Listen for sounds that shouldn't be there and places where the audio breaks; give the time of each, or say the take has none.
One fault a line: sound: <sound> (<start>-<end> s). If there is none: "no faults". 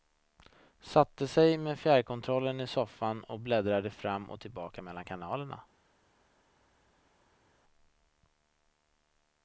no faults